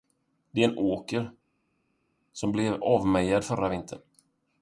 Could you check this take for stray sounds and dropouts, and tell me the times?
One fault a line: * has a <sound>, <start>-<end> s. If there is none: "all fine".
all fine